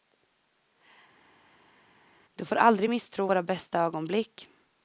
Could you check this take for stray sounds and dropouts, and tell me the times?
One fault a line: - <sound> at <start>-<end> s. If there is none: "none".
none